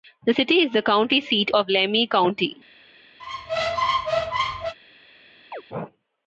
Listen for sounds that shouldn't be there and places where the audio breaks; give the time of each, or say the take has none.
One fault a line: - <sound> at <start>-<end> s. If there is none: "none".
- squeak at 3.2-4.7 s
- chirp at 5.5-5.6 s